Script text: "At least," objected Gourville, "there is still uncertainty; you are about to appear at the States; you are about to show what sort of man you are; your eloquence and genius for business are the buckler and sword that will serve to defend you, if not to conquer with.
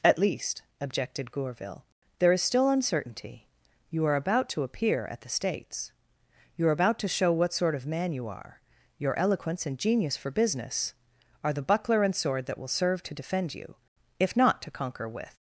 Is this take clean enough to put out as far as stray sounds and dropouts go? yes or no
yes